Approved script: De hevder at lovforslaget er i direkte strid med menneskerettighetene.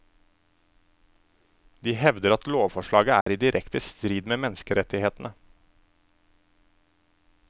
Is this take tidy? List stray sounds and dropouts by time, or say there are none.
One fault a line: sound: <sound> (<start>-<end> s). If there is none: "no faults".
sound: dropout (3.2-3.3 s)